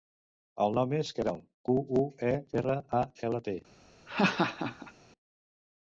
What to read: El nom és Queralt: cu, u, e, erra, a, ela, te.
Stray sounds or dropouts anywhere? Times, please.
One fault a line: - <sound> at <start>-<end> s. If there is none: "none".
- laugh at 4.1-4.9 s